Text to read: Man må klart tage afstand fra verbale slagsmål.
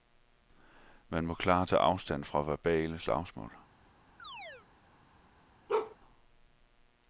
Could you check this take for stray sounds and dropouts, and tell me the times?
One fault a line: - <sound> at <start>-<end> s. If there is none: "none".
- chirp at 4.2-4.7 s
- bark at 5.7-6.0 s